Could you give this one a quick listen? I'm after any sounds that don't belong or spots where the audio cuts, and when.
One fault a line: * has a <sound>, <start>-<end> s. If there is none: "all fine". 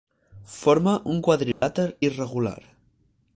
* has a dropout, 1.5-1.6 s